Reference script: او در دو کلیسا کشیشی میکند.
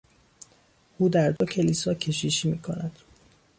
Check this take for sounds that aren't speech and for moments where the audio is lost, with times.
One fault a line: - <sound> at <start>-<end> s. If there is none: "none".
- dropout at 1.4-1.4 s